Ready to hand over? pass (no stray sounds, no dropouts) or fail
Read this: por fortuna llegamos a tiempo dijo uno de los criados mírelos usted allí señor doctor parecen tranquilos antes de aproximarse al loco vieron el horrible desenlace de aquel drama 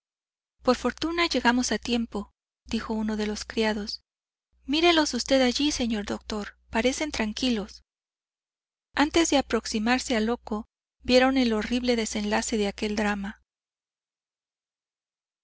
pass